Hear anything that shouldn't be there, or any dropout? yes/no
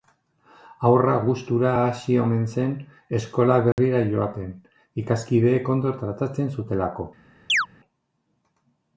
yes